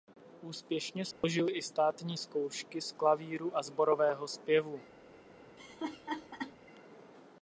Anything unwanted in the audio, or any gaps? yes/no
yes